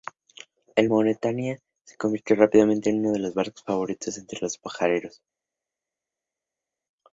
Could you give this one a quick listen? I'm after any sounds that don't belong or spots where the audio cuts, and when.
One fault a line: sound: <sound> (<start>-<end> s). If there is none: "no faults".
no faults